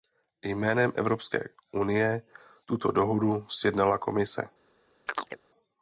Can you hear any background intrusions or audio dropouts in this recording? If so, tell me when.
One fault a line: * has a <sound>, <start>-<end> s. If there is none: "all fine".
* has a chirp, 5.1-5.4 s